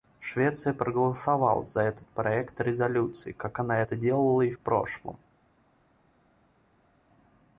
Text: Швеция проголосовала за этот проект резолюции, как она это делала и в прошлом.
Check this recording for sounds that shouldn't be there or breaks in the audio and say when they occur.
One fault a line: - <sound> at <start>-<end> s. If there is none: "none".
none